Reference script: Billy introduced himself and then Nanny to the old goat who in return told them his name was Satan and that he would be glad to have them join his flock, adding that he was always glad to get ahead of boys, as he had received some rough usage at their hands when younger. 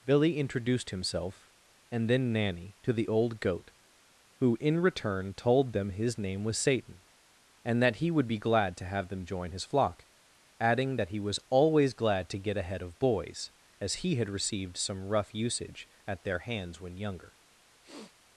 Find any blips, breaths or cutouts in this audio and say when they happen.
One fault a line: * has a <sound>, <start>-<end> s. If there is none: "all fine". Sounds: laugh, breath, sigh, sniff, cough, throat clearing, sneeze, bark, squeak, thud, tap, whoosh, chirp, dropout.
* has a sniff, 17.8-18.2 s